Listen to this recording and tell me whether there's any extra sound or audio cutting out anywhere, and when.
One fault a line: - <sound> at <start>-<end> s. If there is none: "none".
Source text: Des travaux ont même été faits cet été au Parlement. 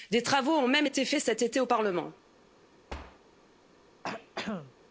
- thud at 2.9-3.2 s
- throat clearing at 4.0-4.7 s